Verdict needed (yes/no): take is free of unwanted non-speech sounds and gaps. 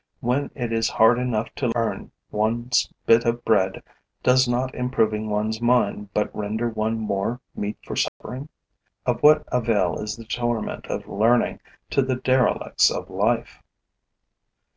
no